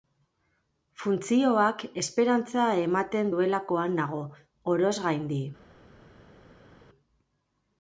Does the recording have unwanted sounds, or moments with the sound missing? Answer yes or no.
no